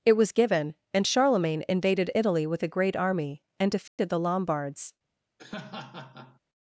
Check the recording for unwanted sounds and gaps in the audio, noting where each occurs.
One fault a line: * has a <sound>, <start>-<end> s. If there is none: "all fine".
* has a dropout, 3.9-4.0 s
* has a laugh, 5.4-6.4 s